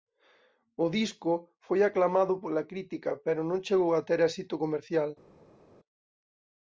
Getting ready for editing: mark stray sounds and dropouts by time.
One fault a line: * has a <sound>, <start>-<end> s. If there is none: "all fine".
all fine